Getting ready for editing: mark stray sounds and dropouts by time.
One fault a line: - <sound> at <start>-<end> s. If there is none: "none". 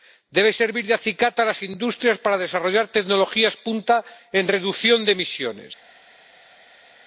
none